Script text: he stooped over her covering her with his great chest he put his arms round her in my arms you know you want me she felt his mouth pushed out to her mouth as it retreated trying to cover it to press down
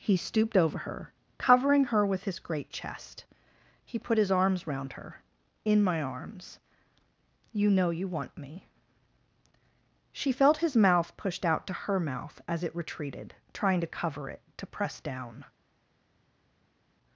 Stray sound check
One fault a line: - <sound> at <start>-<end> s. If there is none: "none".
none